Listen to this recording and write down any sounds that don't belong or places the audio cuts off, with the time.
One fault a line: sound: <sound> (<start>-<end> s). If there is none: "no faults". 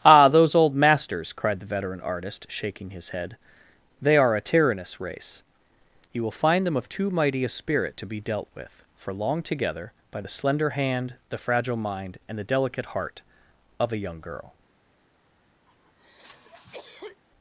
sound: cough (15.7-17.2 s)